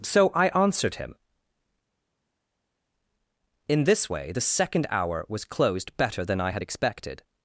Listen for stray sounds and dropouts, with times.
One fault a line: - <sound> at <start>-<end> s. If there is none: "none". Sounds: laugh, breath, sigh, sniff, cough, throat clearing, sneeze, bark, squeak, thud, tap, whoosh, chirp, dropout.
none